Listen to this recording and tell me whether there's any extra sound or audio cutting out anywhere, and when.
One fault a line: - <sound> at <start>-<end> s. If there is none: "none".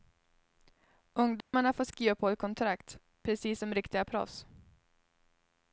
- dropout at 1.4-1.5 s